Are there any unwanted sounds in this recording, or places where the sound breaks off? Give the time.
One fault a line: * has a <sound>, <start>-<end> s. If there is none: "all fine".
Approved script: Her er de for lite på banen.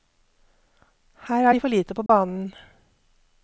* has a dropout, 2.1-2.1 s